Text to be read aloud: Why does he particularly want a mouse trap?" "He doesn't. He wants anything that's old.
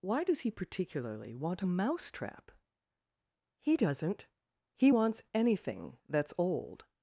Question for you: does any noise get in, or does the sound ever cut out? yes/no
no